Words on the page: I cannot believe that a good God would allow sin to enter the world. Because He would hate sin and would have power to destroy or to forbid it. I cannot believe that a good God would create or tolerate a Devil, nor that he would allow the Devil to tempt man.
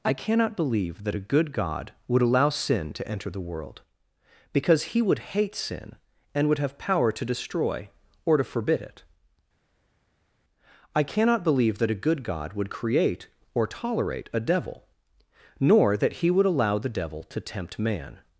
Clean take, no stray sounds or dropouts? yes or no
yes